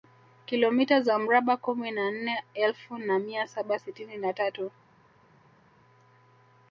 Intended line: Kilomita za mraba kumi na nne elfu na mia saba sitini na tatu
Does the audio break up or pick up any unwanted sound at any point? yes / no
no